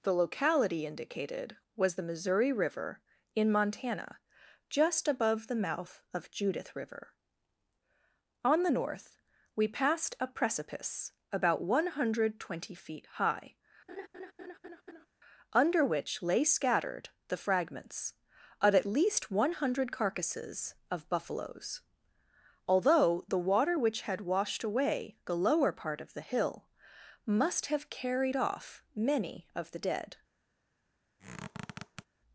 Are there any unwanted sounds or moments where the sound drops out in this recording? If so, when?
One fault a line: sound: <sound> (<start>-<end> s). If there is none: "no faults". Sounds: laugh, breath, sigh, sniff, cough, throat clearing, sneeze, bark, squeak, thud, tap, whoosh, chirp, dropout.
sound: laugh (13.9-15.1 s)
sound: squeak (31.2-32.1 s)